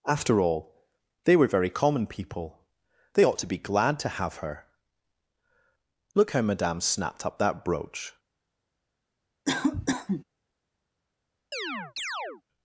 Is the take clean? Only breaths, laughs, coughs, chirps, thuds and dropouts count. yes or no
no